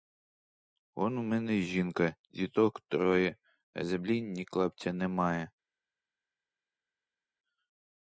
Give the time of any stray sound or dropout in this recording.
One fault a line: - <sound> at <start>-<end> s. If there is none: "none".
none